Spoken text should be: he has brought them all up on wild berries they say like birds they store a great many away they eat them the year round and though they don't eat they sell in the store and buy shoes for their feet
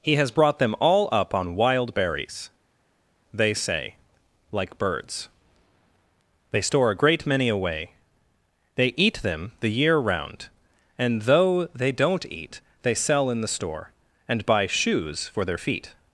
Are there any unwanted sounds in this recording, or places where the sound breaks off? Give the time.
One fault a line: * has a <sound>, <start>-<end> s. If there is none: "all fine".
all fine